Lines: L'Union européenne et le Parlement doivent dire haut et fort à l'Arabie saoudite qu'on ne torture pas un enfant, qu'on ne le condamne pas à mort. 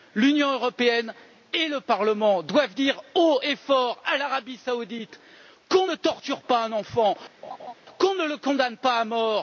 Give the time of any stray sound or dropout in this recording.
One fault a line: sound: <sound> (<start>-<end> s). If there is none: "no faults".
sound: laugh (7.4-7.7 s)